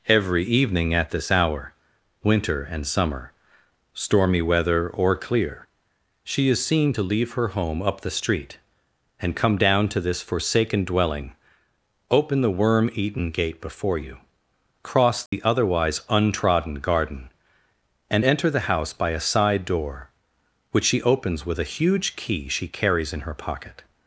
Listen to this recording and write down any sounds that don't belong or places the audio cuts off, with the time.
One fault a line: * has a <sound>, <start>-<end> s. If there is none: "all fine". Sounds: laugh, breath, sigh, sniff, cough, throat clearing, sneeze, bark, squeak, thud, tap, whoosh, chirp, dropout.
* has a dropout, 15.3-15.3 s